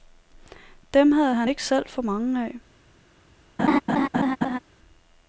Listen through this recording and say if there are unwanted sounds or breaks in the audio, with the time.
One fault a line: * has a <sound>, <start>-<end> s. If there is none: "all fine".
* has a laugh, 3.6-4.6 s